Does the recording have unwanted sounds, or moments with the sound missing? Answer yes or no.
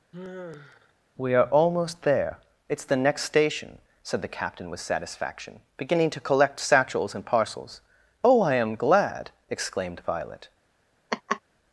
yes